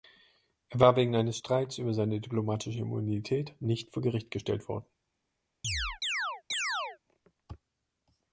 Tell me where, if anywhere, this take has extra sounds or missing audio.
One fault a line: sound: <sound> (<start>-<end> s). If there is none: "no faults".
sound: chirp (5.6-7.0 s)